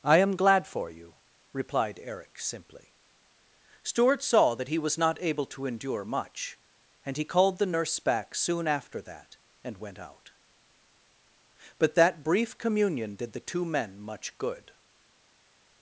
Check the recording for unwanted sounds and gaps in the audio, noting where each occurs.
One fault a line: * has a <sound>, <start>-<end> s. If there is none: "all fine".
all fine